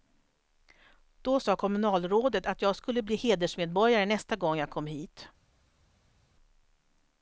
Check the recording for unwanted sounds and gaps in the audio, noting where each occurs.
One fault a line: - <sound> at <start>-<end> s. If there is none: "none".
none